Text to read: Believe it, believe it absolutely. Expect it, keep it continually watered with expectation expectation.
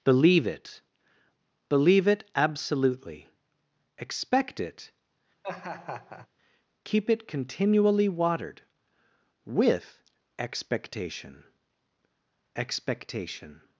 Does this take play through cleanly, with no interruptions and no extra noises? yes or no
no